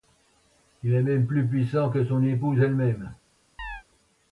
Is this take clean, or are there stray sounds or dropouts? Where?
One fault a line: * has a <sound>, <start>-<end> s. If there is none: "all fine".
* has a chirp, 3.6-3.8 s